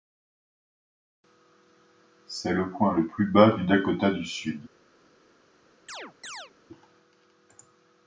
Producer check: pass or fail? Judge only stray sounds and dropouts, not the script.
fail